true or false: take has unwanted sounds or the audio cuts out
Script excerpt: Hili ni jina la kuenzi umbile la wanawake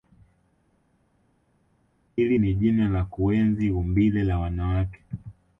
false